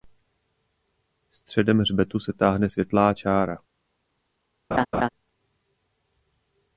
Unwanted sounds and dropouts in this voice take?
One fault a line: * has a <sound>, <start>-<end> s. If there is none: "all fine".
* has a laugh, 4.7-5.1 s